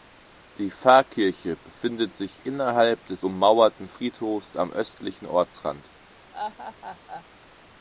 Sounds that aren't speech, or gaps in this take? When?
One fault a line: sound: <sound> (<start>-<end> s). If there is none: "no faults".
sound: laugh (6.3-7.2 s)